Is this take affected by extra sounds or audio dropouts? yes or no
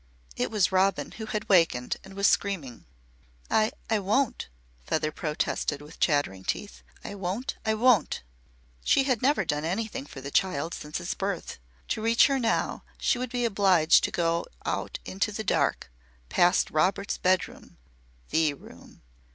no